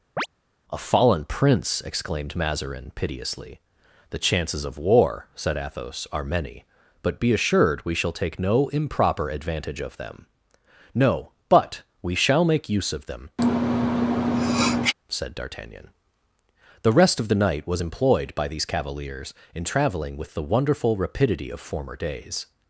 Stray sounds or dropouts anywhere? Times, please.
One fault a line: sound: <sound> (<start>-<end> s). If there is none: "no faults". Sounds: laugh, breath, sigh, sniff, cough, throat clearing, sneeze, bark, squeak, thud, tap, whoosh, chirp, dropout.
sound: chirp (0.2-0.3 s)
sound: sneeze (13.4-14.9 s)